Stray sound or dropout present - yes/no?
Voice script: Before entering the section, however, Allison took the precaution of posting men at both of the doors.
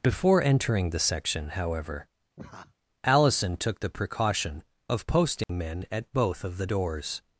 yes